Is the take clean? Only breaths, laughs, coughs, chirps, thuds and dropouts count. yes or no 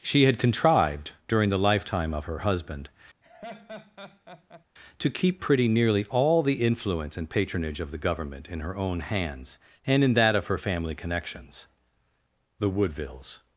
no